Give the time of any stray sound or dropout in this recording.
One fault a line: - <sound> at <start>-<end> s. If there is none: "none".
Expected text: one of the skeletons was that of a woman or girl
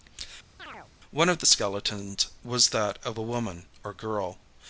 - chirp at 0.6-0.9 s